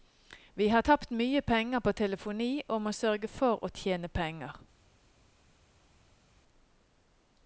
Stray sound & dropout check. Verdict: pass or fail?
pass